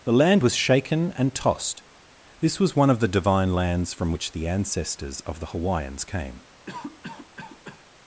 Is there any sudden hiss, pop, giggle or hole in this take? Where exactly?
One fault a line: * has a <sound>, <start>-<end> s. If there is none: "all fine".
* has a cough, 6.7-7.8 s